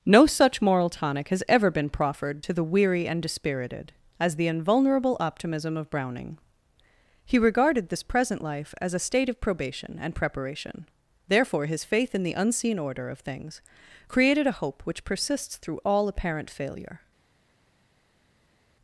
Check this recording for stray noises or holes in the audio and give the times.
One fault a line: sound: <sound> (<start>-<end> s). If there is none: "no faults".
no faults